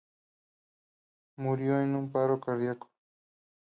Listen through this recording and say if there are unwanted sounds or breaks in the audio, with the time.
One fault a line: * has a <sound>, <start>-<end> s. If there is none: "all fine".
all fine